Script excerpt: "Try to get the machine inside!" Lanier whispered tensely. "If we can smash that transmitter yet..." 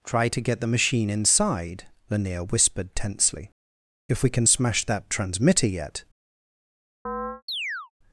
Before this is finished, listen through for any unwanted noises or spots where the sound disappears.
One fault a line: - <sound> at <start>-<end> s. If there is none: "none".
- chirp at 7.1-7.9 s